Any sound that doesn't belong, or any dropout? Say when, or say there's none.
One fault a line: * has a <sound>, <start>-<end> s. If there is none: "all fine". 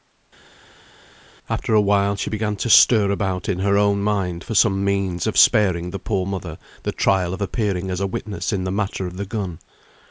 all fine